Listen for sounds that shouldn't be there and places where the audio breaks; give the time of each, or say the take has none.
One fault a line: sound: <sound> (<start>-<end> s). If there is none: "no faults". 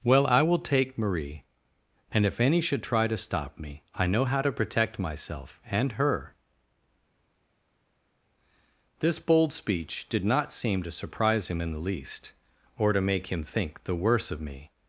no faults